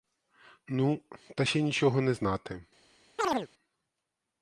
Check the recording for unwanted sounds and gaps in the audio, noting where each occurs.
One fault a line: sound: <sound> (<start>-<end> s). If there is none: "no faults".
sound: chirp (3.2-3.5 s)